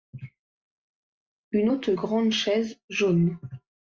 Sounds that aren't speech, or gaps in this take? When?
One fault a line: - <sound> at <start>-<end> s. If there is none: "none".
none